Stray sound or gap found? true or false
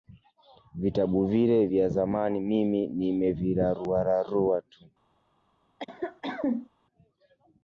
true